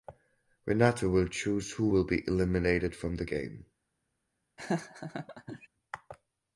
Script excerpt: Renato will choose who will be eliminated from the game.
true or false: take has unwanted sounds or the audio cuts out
true